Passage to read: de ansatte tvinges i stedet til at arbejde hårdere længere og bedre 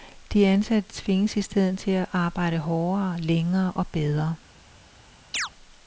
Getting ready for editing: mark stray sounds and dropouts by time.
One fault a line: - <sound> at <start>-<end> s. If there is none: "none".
- chirp at 5.3-5.5 s